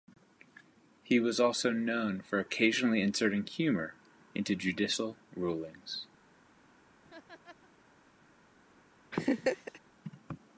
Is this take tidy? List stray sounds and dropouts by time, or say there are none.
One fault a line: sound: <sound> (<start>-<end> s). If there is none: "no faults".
sound: laugh (7.0-7.7 s)
sound: laugh (9.1-9.8 s)